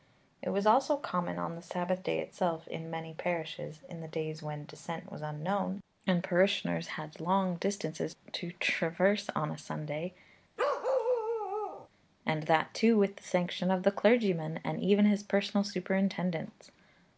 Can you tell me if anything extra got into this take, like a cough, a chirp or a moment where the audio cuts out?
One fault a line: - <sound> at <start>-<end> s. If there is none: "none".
- bark at 10.6-11.9 s